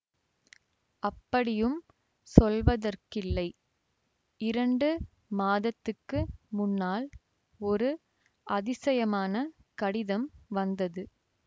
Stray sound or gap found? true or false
false